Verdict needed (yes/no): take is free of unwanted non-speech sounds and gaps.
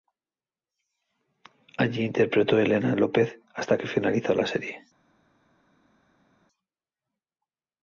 yes